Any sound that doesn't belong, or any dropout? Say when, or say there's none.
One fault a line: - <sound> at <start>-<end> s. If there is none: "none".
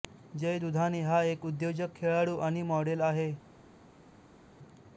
none